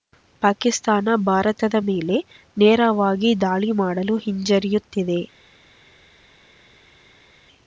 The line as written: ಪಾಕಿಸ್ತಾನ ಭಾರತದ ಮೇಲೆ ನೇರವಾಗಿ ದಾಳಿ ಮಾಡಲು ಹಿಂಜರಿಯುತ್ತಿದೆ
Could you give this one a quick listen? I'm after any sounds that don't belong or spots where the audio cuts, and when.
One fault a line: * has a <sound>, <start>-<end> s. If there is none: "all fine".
all fine